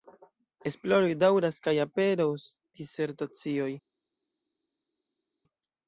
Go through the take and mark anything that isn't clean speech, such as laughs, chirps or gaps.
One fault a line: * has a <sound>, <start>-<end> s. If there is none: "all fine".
all fine